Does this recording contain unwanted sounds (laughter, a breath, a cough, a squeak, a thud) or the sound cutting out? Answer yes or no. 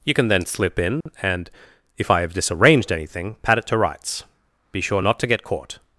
yes